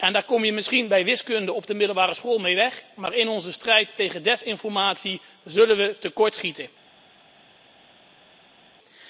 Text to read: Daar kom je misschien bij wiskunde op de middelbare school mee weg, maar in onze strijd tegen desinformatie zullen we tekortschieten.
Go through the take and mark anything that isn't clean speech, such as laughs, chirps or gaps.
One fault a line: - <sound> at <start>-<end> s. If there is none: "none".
none